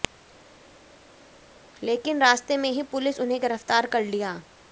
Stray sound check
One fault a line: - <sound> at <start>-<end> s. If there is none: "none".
none